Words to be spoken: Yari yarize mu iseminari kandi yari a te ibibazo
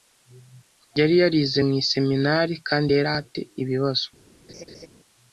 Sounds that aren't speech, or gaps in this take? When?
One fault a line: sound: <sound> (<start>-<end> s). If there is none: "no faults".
sound: laugh (4.5-4.9 s)